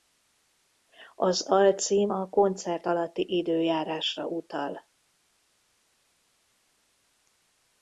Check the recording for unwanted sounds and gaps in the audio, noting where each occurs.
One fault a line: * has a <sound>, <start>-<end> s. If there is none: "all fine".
all fine